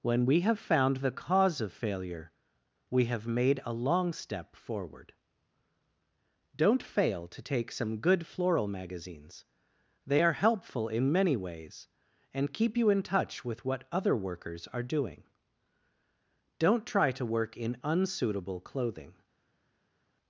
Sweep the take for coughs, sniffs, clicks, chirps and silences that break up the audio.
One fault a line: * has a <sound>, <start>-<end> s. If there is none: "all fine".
all fine